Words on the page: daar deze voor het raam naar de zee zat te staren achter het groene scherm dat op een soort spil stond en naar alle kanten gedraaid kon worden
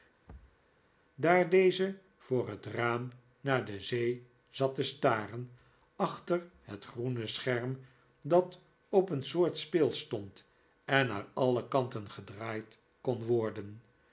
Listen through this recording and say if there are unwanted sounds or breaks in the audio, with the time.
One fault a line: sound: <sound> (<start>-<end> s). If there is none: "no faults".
sound: thud (0.3-0.6 s)